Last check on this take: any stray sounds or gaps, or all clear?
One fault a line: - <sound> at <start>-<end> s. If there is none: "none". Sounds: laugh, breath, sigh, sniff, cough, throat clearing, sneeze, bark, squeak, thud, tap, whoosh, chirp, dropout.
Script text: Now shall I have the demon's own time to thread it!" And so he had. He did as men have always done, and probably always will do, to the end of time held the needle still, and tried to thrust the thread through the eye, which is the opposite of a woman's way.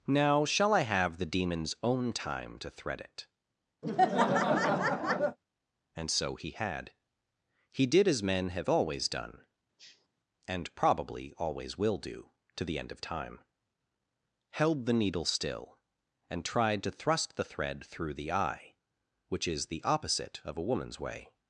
- laugh at 3.8-5.4 s
- sniff at 9.8-10.1 s